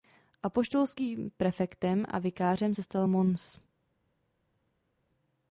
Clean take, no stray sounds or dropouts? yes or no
yes